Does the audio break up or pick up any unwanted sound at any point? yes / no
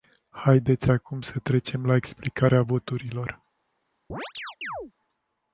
yes